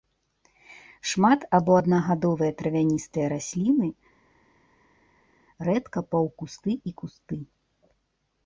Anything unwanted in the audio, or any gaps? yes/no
no